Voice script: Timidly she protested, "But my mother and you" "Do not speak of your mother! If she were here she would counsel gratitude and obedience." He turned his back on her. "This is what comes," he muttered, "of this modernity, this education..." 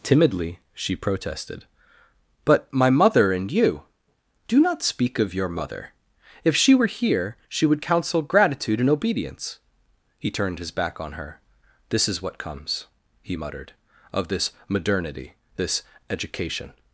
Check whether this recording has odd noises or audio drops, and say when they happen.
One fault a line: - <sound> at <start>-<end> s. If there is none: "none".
none